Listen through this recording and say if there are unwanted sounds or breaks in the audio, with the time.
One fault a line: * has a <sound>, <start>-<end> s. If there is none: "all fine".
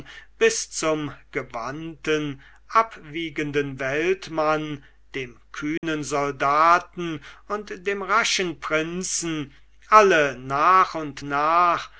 * has a dropout, 5.8-5.8 s